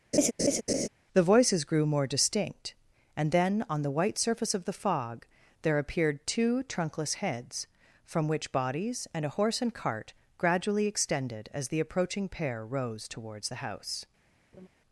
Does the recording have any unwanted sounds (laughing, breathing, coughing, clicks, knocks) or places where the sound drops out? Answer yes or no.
yes